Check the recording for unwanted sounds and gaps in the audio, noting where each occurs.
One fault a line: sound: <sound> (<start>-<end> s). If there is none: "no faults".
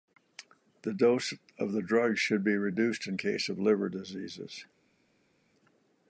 no faults